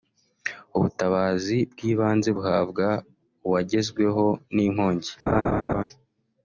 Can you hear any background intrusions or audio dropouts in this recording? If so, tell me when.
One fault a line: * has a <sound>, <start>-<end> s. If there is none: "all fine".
* has a laugh, 5.3-5.8 s